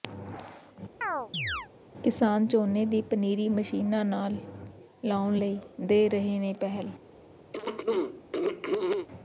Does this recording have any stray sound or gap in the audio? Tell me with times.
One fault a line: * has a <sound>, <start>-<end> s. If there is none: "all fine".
* has a chirp, 1.0-1.7 s
* has a throat clearing, 7.5-9.1 s